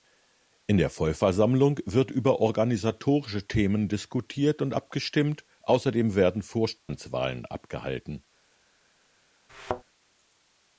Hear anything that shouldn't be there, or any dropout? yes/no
yes